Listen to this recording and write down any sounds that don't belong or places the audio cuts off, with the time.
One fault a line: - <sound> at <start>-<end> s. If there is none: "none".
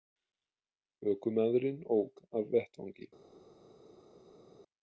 none